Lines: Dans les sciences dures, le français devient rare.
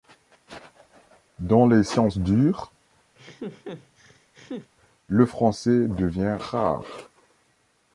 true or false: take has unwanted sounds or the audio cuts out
true